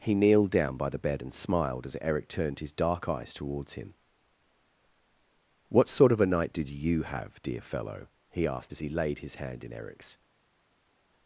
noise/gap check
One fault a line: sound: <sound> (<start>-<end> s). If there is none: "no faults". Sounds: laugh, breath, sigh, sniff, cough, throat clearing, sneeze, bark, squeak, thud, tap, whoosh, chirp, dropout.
no faults